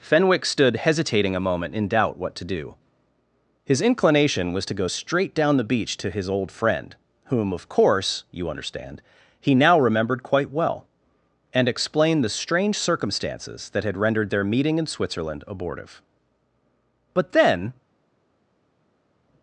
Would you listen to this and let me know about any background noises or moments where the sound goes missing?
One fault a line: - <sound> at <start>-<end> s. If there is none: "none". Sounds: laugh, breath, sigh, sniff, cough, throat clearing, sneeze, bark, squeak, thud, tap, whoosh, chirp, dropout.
none